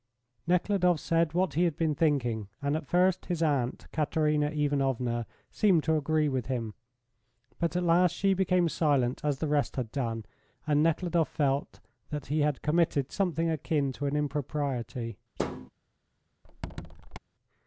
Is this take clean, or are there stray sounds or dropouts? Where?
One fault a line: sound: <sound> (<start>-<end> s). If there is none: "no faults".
sound: thud (15.4-15.7 s)
sound: squeak (16.4-17.2 s)